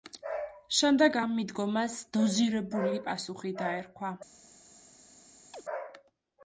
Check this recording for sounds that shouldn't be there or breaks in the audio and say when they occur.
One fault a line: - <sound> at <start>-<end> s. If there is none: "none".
- chirp at 5.5-5.6 s